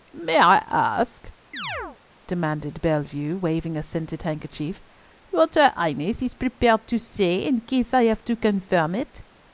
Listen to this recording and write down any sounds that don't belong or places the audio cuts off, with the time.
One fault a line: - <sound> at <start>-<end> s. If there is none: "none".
- chirp at 1.5-2.0 s